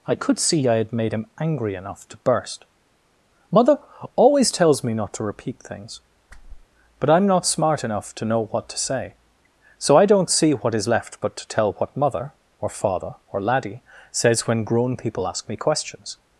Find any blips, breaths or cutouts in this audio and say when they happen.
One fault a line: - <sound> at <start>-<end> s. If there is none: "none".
- whoosh at 6.3-6.7 s